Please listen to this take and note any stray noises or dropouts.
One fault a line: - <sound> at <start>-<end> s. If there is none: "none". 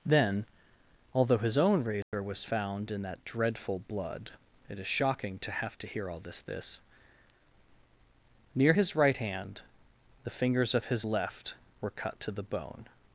- dropout at 2.0-2.1 s